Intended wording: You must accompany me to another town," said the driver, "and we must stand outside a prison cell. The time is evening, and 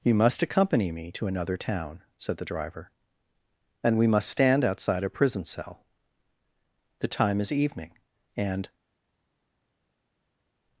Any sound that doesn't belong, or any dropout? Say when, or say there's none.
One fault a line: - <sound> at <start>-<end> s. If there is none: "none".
none